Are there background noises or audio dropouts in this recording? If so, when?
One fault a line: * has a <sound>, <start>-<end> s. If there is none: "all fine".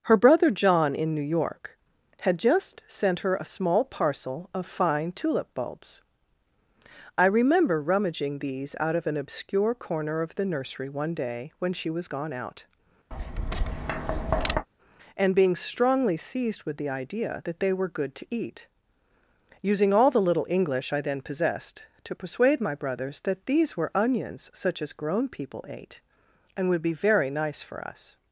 * has a tap, 13.1-14.7 s